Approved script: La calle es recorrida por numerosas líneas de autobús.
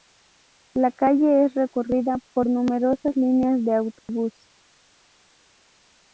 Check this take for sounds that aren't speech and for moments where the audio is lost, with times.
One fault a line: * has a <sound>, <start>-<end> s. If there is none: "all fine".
* has a dropout, 4.0-4.1 s